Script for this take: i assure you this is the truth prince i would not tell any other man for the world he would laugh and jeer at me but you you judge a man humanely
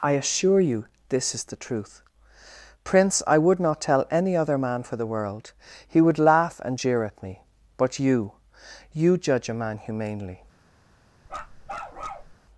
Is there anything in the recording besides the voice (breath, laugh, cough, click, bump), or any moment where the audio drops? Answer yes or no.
yes